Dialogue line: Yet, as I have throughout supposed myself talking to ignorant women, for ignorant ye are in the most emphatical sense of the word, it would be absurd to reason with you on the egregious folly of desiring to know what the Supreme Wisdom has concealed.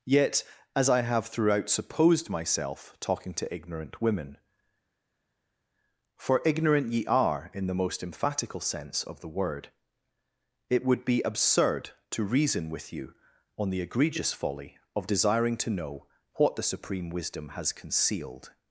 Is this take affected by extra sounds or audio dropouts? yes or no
no